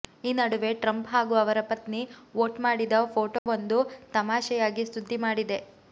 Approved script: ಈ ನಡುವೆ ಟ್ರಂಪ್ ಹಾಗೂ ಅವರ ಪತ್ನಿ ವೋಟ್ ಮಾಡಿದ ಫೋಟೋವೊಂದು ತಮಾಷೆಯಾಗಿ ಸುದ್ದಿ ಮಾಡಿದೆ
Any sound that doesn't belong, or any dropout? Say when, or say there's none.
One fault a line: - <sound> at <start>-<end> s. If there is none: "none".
- dropout at 3.4-3.5 s